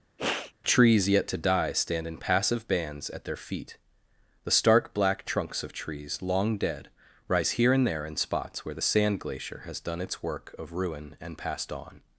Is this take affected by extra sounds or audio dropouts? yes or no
yes